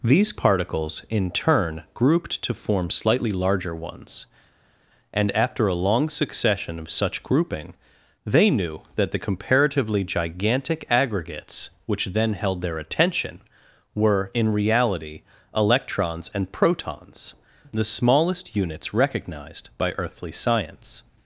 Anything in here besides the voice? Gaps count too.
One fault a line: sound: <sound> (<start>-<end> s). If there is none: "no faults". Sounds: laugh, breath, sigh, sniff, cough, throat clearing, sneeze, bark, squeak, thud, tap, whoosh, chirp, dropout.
no faults